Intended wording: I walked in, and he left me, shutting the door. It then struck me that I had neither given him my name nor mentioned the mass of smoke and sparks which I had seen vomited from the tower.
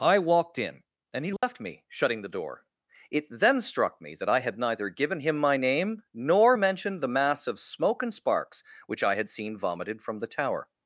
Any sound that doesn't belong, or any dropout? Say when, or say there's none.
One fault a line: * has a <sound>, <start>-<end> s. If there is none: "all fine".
* has a dropout, 1.4-1.4 s